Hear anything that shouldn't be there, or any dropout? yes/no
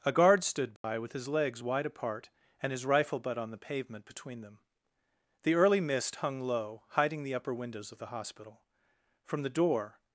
yes